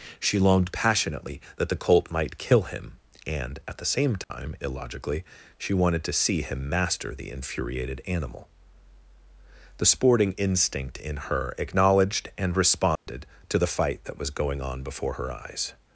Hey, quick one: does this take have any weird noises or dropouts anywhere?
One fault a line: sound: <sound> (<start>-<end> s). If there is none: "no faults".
sound: dropout (4.2-4.3 s)
sound: dropout (13.0-13.1 s)